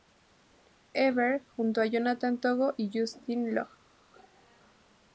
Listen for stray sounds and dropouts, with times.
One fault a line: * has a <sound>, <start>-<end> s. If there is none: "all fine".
all fine